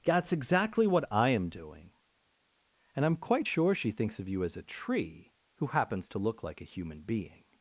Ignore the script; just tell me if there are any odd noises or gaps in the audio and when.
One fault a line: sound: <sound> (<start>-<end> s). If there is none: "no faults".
no faults